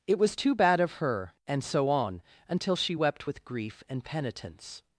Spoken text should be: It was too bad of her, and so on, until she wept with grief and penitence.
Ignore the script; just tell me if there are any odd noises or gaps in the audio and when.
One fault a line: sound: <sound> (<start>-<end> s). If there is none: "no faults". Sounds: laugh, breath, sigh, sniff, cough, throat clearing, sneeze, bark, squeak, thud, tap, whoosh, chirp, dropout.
no faults